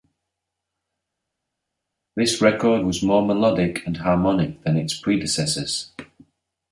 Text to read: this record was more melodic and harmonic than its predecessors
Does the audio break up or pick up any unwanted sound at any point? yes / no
no